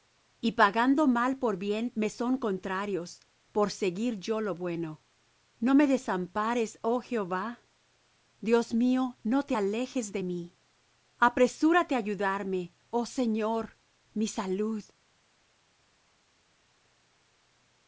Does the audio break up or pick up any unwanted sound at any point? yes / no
no